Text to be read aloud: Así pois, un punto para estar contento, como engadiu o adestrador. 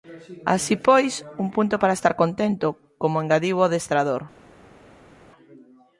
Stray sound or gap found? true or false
false